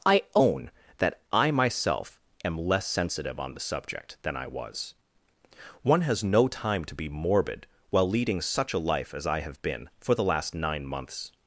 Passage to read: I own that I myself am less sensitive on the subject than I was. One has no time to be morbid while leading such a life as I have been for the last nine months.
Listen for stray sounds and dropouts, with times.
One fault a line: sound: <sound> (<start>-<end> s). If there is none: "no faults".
no faults